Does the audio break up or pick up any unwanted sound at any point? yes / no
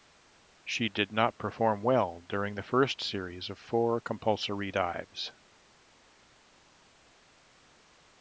no